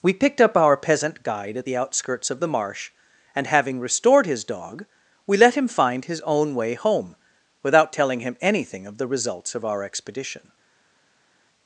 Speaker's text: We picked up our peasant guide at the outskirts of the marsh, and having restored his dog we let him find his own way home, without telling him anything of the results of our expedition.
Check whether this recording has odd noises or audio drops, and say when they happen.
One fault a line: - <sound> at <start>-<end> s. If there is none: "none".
none